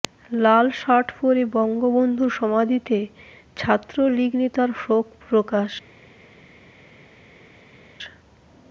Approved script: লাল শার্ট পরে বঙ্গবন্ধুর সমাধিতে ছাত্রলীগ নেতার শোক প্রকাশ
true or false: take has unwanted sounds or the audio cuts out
false